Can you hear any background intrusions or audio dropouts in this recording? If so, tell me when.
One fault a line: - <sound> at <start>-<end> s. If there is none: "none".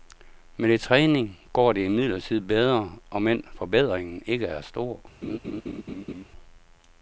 - laugh at 5.2-6.2 s